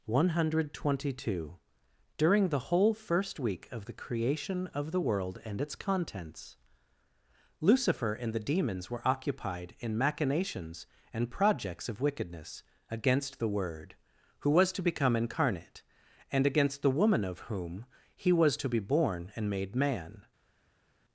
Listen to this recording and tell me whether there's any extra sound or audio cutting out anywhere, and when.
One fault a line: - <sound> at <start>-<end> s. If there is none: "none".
none